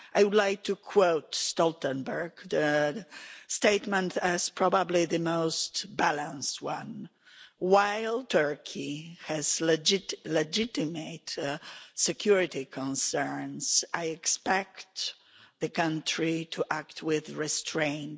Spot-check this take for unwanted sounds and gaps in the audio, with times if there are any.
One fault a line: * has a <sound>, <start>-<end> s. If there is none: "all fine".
all fine